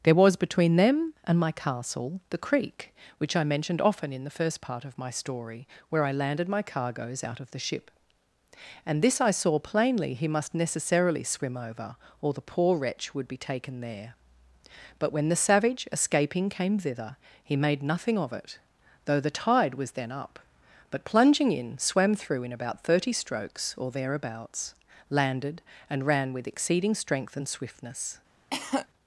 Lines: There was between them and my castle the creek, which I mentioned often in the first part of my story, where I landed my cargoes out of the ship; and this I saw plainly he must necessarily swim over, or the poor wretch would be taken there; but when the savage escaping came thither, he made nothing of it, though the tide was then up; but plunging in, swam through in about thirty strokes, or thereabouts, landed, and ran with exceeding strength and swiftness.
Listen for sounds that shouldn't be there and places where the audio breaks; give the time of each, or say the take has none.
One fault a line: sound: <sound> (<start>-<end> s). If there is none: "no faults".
sound: cough (28.5-28.9 s)